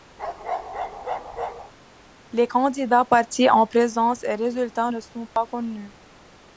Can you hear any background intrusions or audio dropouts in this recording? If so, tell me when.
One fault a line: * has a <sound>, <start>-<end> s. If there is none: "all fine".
* has a bark, 0.2-1.7 s
* has a dropout, 5.3-5.4 s